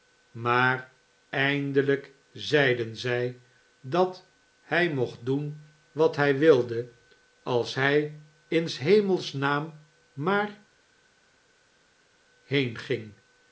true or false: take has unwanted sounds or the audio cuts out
false